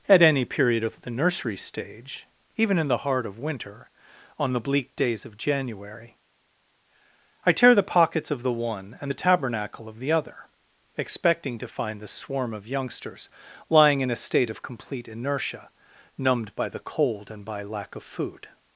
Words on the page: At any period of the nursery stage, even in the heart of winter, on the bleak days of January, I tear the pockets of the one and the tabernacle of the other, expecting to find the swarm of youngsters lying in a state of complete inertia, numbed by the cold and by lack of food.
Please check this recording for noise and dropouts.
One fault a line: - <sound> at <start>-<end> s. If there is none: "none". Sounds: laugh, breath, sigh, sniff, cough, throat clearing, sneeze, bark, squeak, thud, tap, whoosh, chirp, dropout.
none